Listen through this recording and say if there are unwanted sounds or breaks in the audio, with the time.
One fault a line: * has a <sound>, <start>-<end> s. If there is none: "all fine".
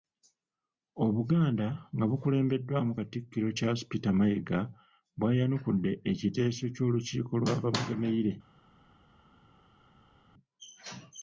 all fine